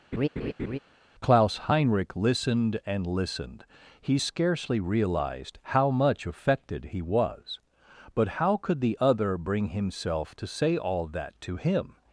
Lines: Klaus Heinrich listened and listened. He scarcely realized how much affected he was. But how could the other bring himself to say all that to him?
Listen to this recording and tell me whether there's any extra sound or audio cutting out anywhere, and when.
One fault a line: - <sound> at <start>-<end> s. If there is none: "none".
- laugh at 0.1-0.8 s